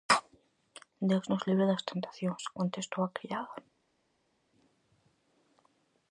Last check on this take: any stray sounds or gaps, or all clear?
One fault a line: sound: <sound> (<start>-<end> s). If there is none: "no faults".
no faults